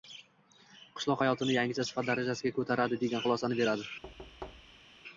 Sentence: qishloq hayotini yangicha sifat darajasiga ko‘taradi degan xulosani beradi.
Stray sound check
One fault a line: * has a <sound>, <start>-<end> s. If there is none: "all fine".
* has a thud, 4.0-4.9 s